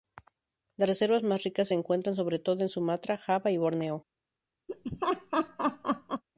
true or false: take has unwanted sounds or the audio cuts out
true